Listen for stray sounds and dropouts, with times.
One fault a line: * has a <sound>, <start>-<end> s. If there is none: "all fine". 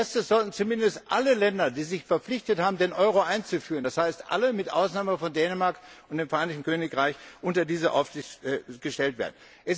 all fine